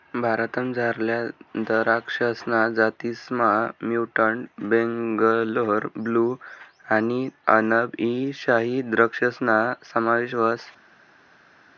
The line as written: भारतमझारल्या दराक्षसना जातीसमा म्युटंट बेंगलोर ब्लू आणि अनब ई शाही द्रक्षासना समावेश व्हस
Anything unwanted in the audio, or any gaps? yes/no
no